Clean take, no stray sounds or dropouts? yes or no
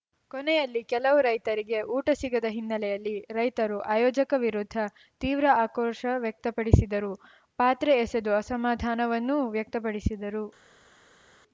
yes